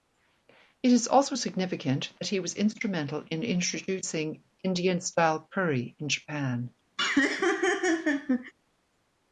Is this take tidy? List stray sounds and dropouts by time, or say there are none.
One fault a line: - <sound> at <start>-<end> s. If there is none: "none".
- laugh at 7.0-8.5 s